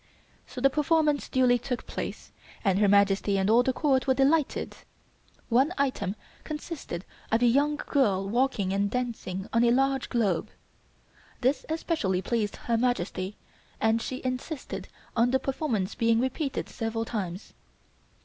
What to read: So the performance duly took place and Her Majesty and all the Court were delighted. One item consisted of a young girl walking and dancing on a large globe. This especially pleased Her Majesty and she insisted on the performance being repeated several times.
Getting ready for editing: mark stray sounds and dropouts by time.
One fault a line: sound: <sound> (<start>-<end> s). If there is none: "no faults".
no faults